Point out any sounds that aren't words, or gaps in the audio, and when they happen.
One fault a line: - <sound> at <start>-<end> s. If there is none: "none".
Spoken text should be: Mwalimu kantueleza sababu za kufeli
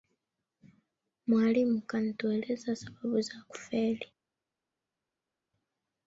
none